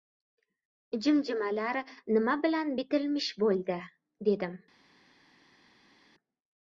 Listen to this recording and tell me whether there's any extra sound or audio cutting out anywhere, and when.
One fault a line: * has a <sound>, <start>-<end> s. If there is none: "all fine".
all fine